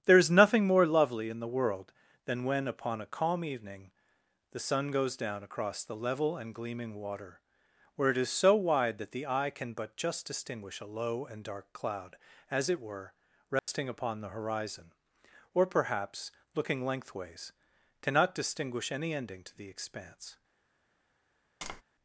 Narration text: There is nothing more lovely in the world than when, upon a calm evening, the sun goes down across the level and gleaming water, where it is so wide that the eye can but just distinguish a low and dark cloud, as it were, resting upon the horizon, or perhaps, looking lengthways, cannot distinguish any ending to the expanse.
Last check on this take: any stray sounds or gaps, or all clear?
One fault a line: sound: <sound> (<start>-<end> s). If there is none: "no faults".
sound: dropout (13.6-13.7 s)
sound: tap (21.6-21.8 s)